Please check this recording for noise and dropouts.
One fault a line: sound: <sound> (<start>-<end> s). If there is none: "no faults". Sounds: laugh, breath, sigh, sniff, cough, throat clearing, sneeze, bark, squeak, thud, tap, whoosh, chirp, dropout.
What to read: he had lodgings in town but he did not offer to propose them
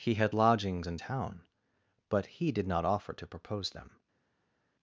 no faults